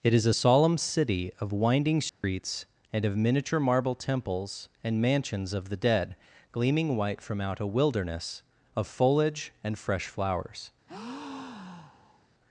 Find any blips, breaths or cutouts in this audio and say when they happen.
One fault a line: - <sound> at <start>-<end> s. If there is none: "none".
- dropout at 2.1-2.2 s
- breath at 10.9-12.3 s